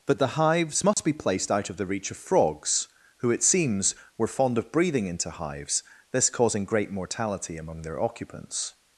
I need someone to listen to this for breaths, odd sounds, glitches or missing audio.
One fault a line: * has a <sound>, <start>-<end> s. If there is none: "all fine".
* has a dropout, 0.9-1.0 s